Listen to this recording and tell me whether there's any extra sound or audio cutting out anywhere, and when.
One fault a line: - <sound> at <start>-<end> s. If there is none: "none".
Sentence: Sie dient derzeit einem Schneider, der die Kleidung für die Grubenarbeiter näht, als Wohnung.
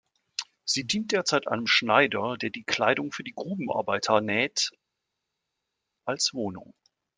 none